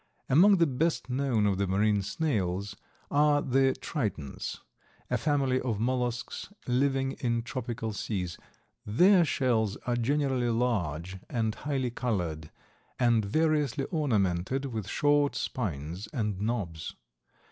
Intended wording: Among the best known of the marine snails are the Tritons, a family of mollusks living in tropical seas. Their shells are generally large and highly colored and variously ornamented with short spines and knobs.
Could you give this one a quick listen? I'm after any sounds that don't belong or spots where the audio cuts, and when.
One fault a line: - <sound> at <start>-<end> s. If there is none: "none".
none